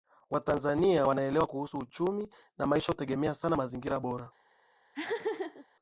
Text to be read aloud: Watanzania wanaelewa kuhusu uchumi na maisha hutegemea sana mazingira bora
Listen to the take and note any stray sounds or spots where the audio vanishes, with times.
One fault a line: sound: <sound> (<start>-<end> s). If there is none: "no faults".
sound: laugh (4.9-5.7 s)